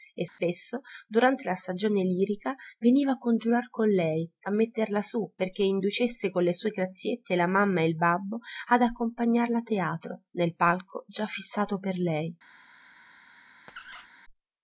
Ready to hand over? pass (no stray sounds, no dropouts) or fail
fail